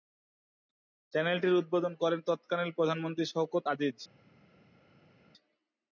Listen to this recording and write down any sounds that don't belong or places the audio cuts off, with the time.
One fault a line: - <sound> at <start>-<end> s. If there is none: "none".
none